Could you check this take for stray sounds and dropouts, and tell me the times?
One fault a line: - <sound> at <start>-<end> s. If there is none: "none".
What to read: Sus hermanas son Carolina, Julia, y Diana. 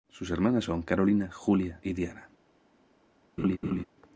- laugh at 3.4-3.8 s